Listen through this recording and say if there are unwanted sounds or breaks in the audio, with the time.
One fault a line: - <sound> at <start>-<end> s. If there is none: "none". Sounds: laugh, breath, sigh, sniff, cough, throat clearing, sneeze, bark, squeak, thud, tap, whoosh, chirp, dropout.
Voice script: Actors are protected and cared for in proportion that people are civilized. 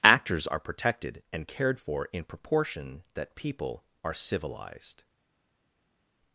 none